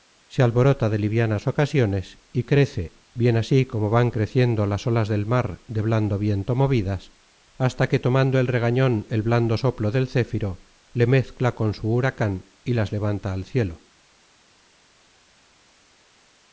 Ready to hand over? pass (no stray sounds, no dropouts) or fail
pass